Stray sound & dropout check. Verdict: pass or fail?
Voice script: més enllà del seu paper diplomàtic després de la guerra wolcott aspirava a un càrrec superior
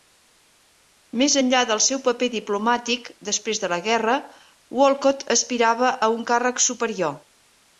pass